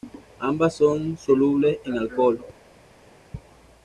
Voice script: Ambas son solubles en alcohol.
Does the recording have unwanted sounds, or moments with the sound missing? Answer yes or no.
no